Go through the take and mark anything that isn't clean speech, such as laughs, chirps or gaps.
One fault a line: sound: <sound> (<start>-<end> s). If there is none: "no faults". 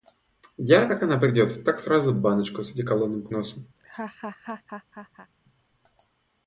sound: laugh (3.8-5.3 s)